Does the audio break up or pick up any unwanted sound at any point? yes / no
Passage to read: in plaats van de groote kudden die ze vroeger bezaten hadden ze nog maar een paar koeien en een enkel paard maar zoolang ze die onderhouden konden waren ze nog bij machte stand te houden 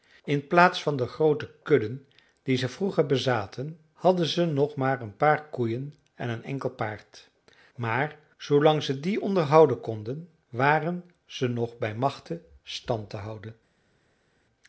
no